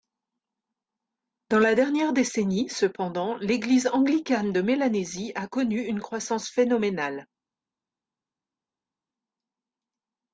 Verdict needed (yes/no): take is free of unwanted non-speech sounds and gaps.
yes